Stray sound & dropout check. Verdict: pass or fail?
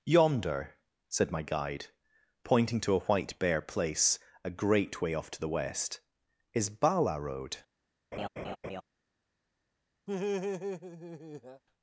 fail